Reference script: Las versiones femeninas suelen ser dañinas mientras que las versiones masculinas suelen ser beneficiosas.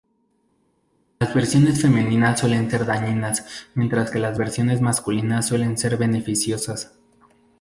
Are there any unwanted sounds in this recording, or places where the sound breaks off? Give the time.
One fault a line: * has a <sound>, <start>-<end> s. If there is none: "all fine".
all fine